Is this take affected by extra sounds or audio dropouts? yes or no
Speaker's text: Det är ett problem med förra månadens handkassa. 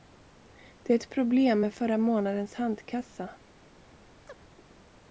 yes